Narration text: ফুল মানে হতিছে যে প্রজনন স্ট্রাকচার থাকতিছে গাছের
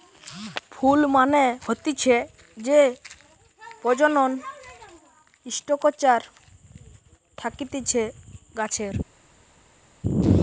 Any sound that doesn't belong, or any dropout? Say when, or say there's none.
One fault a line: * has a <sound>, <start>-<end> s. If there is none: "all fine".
all fine